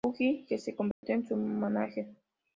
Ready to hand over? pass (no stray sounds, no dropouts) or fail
fail